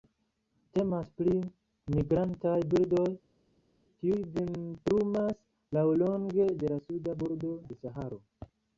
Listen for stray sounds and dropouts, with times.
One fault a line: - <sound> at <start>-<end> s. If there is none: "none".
none